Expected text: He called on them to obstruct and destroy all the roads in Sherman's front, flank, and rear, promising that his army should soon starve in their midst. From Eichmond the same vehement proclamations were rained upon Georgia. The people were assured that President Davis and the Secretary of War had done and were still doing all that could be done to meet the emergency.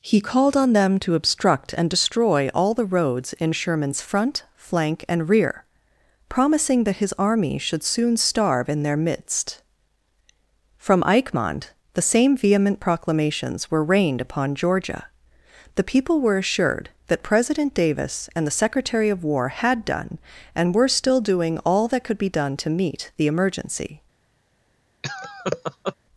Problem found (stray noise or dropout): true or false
true